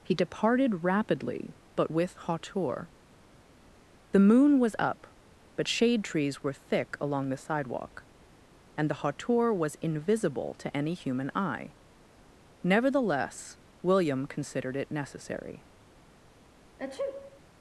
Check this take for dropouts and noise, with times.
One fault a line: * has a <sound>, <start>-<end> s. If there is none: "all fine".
* has a sneeze, 16.8-17.4 s